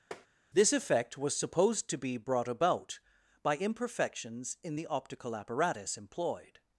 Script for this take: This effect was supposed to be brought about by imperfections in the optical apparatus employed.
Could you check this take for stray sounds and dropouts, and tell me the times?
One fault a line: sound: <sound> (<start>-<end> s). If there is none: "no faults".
sound: tap (0.1-0.3 s)